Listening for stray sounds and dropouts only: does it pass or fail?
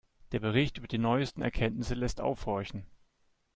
pass